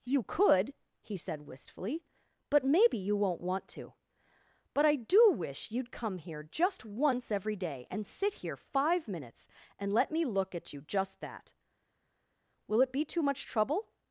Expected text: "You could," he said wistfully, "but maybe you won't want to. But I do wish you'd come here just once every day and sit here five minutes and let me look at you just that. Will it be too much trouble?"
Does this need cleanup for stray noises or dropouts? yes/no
no